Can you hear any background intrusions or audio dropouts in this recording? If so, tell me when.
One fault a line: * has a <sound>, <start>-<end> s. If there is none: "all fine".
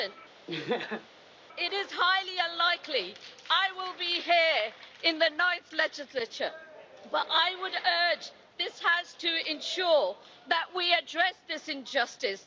* has a laugh, 0.5-1.1 s